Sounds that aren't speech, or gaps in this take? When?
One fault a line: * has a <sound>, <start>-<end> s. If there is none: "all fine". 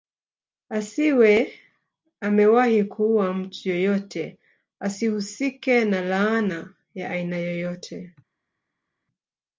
all fine